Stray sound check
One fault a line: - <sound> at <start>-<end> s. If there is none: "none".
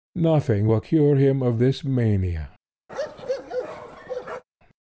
- bark at 2.9-4.4 s